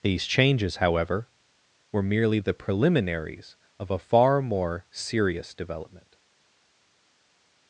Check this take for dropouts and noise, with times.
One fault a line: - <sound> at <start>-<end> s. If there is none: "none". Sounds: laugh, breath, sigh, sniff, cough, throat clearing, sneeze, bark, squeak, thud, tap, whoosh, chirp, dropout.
none